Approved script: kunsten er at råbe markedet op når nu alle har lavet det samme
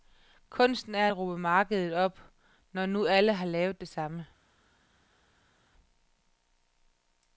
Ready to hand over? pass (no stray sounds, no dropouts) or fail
pass